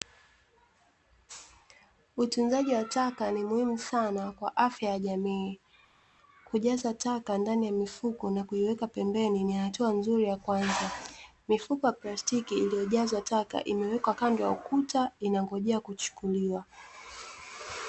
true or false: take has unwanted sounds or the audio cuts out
false